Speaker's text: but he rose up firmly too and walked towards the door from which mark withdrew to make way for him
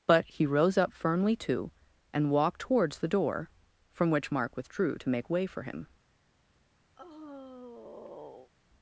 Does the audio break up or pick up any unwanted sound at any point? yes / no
yes